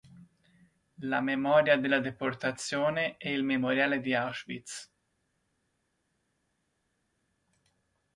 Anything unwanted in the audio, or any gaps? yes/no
no